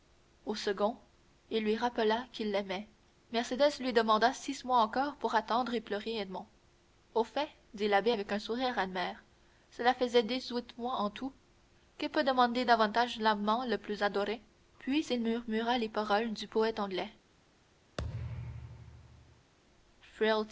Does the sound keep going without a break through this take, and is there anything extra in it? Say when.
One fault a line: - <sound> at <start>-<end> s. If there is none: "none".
- thud at 18.0-19.5 s